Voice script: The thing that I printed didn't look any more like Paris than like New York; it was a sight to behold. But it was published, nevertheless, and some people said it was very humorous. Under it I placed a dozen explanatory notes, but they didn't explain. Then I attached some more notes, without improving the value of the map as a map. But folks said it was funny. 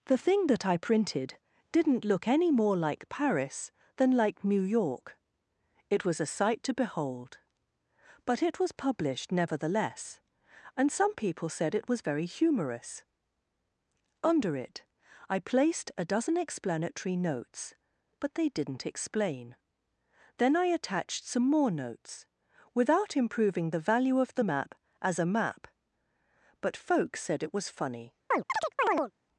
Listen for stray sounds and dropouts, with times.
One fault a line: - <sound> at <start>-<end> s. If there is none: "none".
- chirp at 28.3-29.1 s